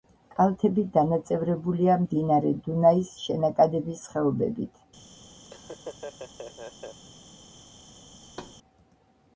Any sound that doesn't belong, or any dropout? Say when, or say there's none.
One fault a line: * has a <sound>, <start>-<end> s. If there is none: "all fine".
* has a laugh, 5.4-7.0 s
* has a thud, 8.2-8.6 s